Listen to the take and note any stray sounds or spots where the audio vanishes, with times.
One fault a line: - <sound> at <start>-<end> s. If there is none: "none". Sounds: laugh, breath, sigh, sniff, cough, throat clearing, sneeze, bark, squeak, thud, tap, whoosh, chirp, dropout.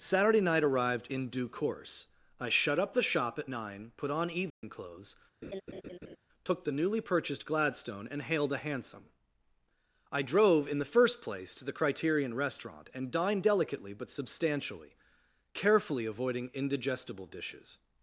- dropout at 4.5-4.6 s
- laugh at 5.4-6.2 s